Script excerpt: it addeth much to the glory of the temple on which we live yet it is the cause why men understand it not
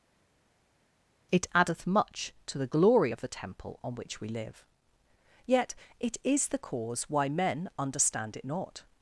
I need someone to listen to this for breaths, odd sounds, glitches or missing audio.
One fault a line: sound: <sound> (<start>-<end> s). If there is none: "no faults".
no faults